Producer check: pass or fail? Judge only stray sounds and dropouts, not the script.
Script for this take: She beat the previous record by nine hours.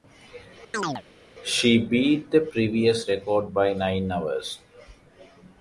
fail